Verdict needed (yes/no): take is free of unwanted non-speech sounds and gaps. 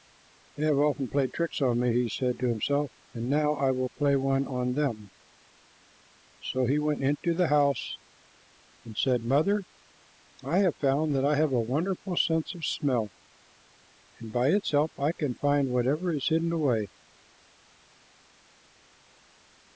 yes